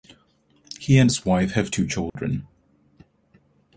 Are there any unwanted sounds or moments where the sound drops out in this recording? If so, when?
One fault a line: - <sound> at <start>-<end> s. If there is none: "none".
- dropout at 2.1-2.2 s